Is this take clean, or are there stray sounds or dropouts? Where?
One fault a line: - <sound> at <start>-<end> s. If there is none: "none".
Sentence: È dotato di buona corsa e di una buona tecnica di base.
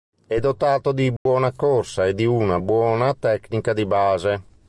- dropout at 1.2-1.3 s